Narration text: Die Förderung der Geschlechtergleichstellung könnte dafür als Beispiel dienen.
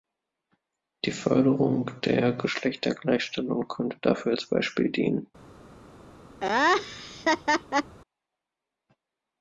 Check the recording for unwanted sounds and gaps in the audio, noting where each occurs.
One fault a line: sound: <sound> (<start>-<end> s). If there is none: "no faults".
sound: laugh (6.4-8.0 s)